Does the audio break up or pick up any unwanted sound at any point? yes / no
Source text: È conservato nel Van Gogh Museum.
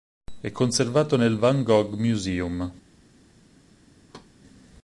yes